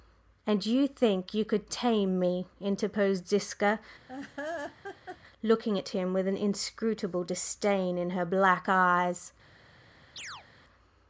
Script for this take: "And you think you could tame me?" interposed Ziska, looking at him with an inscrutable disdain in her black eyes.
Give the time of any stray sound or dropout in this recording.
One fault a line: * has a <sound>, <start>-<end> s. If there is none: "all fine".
* has a laugh, 4.1-5.2 s
* has a chirp, 10.2-10.5 s